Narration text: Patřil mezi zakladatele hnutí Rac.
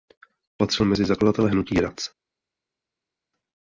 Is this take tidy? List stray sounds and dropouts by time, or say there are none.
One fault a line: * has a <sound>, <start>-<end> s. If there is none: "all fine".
all fine